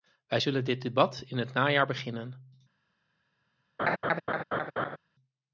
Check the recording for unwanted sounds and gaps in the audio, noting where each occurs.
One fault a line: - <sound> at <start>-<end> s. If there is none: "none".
- laugh at 3.8-5.0 s